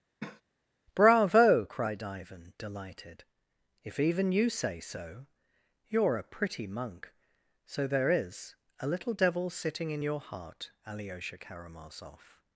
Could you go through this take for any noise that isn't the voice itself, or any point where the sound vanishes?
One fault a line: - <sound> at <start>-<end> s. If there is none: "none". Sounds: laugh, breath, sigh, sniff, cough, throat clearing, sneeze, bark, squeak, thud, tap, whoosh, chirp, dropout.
- cough at 0.2-0.4 s